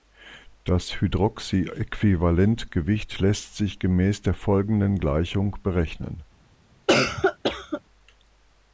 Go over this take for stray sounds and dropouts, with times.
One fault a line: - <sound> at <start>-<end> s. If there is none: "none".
- cough at 6.9-7.8 s